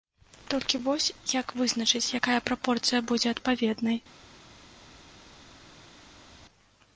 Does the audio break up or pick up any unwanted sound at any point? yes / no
no